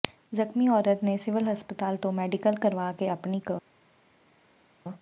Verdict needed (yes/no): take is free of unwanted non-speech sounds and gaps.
yes